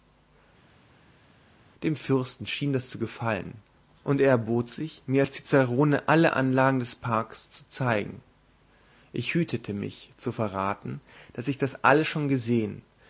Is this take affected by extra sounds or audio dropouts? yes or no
no